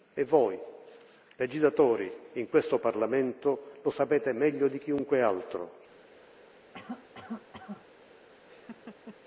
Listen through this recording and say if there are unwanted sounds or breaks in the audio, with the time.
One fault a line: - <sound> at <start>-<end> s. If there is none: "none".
- cough at 6.7-7.9 s
- laugh at 8.5-9.2 s